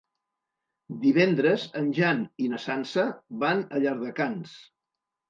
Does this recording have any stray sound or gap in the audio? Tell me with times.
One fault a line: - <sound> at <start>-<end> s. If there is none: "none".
none